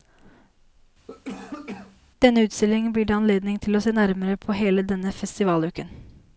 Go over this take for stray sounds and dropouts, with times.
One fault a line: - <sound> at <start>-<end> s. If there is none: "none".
- cough at 1.1-2.0 s